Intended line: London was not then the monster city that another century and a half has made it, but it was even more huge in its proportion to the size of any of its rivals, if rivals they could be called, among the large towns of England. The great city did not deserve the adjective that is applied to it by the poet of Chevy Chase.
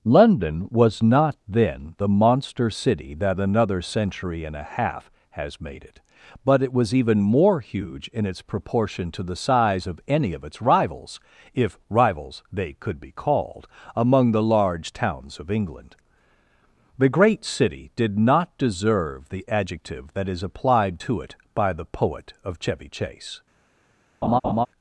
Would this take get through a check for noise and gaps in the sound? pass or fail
fail